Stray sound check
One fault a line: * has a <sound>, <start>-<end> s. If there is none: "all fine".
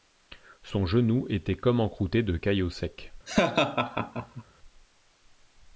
* has a laugh, 3.3-4.4 s